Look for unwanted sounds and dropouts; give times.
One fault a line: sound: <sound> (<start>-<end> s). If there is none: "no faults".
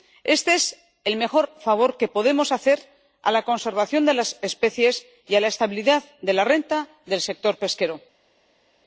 no faults